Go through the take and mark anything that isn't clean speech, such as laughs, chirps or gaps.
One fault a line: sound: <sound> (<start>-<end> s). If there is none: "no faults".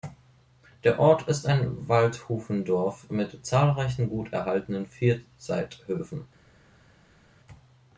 no faults